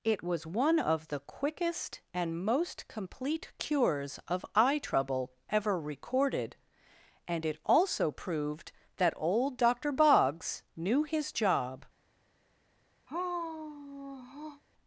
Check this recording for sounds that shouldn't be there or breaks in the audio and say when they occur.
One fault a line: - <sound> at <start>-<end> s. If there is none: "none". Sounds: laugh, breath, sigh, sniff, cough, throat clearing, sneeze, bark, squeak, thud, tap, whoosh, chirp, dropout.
- sigh at 13.1-14.6 s